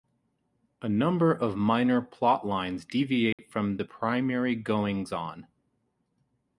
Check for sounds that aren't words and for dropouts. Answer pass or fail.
fail